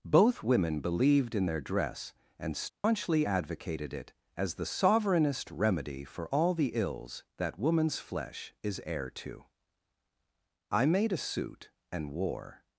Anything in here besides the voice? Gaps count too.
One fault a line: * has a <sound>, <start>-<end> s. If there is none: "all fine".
* has a dropout, 2.7-2.8 s